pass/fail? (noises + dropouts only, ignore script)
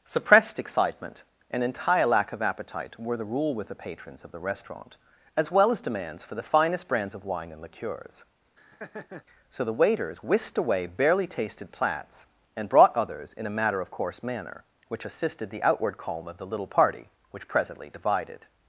fail